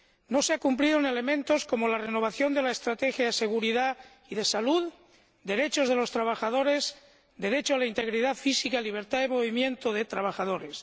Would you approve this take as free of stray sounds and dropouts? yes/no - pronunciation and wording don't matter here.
yes